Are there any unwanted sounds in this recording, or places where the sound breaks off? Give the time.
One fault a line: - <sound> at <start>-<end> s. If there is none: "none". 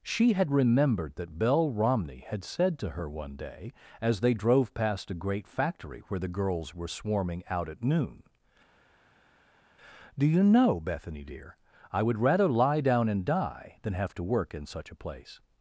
none